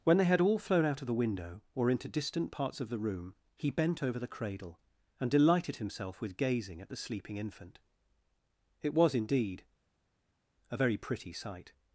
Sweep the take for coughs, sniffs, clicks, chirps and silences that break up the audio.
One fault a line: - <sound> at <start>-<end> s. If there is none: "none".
none